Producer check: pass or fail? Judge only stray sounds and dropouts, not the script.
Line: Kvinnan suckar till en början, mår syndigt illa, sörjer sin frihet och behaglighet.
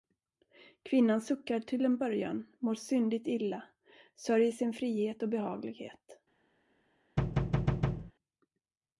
fail